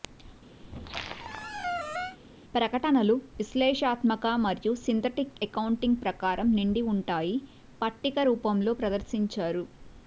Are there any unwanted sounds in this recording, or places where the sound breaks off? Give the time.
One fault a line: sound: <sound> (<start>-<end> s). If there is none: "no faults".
sound: squeak (0.6-2.2 s)